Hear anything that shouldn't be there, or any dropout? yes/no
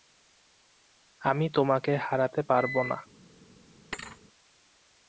yes